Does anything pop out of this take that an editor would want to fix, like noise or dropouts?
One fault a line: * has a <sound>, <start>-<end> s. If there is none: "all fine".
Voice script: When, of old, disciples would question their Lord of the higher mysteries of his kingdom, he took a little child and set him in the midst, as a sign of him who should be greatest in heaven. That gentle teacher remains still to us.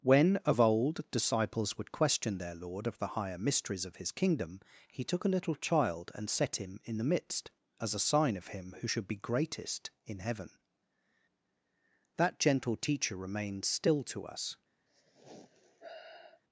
* has a sigh, 14.9-16.4 s